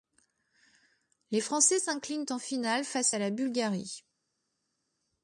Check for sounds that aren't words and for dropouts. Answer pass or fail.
pass